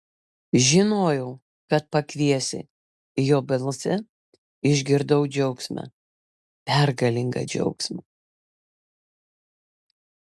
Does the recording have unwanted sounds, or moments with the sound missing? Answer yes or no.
no